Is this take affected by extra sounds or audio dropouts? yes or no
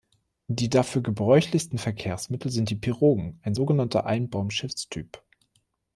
no